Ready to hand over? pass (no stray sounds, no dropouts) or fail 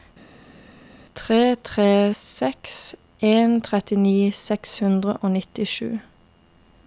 pass